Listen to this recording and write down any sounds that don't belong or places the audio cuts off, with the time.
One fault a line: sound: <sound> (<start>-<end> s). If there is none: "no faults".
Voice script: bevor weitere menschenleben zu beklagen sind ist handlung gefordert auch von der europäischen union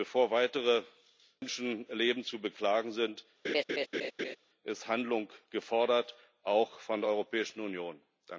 sound: laugh (3.4-4.4 s)